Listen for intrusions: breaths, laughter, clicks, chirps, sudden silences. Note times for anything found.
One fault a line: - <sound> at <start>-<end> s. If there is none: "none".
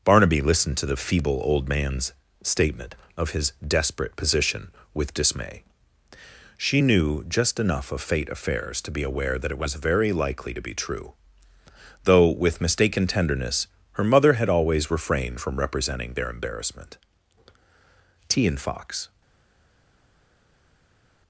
none